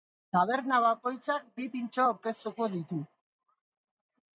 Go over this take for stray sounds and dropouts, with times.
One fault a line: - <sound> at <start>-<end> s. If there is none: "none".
none